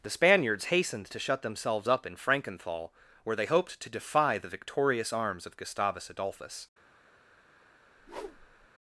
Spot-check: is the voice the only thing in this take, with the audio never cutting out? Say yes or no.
no